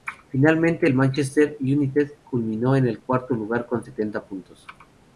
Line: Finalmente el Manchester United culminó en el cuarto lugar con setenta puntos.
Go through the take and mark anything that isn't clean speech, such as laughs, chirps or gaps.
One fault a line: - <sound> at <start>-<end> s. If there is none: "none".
none